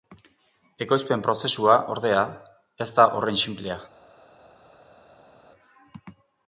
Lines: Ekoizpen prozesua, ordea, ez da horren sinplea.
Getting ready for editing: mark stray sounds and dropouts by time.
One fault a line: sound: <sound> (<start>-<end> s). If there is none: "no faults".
no faults